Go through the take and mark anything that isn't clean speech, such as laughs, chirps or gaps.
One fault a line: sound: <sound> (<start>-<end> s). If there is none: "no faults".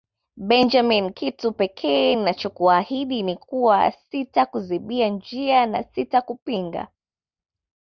no faults